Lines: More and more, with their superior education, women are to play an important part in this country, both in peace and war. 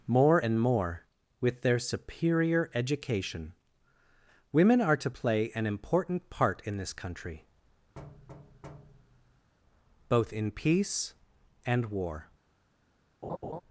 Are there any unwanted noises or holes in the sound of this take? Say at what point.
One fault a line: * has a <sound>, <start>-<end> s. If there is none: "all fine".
* has a thud, 7.9-9.5 s
* has a laugh, 13.2-13.6 s